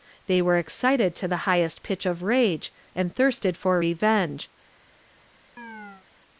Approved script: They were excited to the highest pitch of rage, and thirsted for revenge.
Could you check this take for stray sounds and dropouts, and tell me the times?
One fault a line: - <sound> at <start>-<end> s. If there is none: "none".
- chirp at 5.6-6.1 s